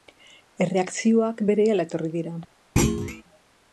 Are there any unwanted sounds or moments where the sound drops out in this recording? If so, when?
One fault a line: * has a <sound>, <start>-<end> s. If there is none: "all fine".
* has a thud, 2.8-3.2 s